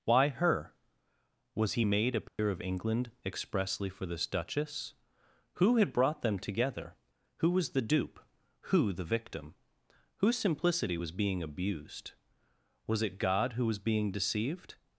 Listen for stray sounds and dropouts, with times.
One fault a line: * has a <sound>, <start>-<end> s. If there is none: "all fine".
* has a dropout, 2.3-2.4 s